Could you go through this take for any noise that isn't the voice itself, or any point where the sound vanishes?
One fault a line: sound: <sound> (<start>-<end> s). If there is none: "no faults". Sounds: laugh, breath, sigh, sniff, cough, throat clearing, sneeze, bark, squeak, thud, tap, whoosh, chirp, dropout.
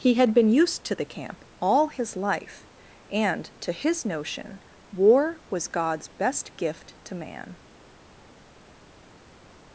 no faults